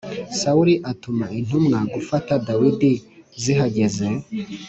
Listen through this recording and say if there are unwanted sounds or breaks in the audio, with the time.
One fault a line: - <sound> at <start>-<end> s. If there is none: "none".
none